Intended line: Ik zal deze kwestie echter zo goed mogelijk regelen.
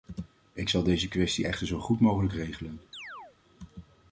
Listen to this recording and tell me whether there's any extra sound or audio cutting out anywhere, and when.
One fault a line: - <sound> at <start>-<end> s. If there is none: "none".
- chirp at 2.9-3.4 s